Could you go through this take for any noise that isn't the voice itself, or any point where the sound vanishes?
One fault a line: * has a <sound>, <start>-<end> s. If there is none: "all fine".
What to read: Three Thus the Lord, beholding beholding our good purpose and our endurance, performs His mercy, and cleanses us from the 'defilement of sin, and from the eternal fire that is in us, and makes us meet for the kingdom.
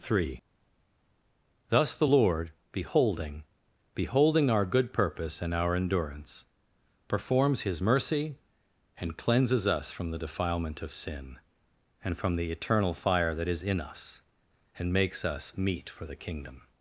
all fine